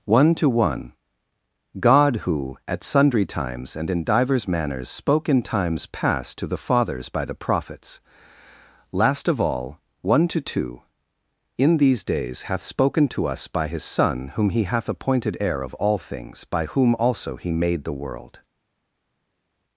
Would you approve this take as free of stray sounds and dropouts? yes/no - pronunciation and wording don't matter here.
yes